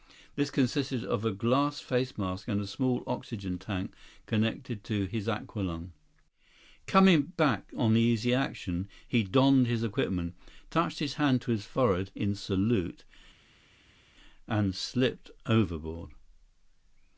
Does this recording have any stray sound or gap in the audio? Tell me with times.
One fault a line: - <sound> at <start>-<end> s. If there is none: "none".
none